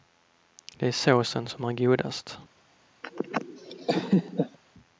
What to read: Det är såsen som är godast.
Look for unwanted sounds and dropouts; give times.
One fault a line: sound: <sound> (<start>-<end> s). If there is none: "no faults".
sound: laugh (3.0-4.6 s)